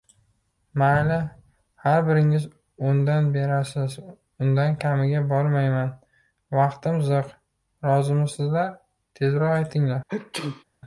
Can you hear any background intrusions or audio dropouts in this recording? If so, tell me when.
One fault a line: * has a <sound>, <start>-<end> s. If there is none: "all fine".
* has a sneeze, 10.1-10.6 s